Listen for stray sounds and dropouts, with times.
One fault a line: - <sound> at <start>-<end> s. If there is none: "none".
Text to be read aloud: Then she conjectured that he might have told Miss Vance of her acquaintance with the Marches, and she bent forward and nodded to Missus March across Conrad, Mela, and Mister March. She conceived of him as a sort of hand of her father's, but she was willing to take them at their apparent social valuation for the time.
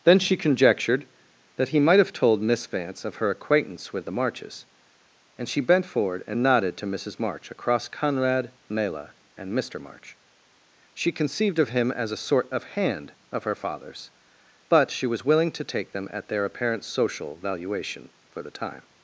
none